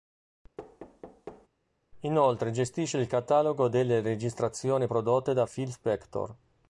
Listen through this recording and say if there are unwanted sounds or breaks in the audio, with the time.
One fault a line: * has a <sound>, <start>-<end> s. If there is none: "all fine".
* has a thud, 0.6-1.5 s